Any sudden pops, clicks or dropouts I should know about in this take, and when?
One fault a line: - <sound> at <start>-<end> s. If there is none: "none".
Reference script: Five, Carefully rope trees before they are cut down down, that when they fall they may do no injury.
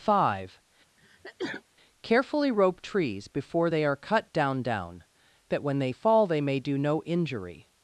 - sneeze at 1.0-1.6 s